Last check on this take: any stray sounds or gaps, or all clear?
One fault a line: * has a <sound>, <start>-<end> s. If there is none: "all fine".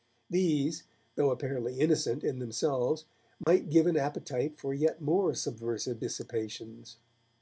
* has a dropout, 3.4-3.5 s